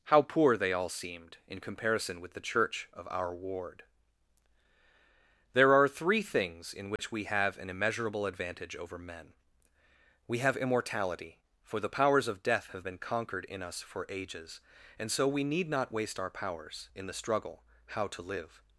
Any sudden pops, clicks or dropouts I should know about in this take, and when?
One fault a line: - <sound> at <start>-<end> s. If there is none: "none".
- dropout at 7.0-7.0 s